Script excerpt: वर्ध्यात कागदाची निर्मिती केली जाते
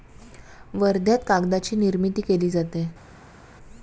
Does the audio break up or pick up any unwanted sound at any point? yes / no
no